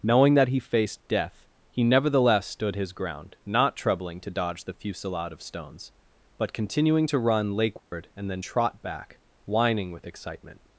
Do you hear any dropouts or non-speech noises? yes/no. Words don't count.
yes